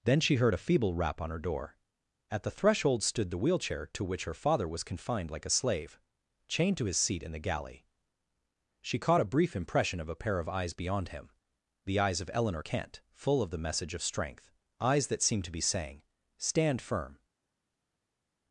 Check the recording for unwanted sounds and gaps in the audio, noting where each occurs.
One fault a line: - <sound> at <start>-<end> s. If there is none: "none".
none